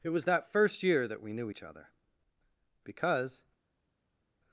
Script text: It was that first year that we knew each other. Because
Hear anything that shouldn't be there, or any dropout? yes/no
no